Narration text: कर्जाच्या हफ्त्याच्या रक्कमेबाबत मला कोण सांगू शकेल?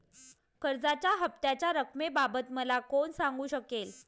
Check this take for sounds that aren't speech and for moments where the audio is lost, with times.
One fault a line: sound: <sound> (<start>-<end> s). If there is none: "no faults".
no faults